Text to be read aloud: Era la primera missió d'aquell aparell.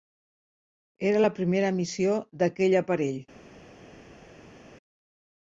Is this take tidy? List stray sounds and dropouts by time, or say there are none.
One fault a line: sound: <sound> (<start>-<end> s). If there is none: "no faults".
no faults